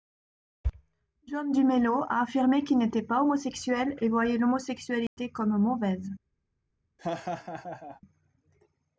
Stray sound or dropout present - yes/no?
yes